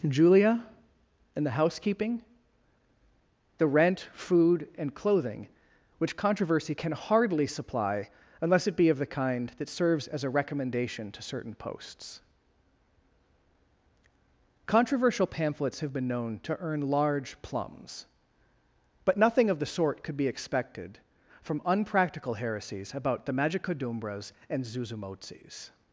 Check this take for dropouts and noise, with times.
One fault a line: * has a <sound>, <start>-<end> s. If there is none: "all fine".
all fine